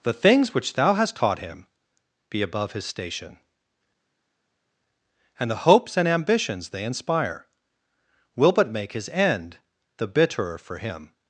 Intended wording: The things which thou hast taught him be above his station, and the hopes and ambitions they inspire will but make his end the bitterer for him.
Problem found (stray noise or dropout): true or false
false